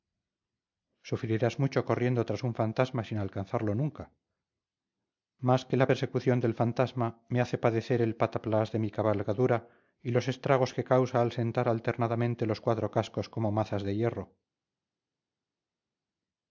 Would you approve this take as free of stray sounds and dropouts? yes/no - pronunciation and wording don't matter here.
yes